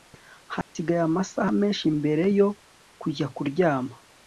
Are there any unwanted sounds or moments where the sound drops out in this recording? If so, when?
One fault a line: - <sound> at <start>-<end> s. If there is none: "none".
- dropout at 0.6-0.8 s